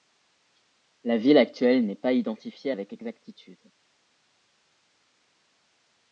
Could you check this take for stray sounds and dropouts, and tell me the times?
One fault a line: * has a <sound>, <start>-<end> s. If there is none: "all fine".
all fine